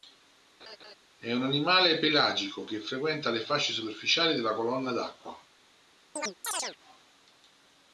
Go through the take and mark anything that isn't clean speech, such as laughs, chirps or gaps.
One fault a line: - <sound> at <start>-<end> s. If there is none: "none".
- laugh at 0.6-1.0 s
- chirp at 6.2-6.8 s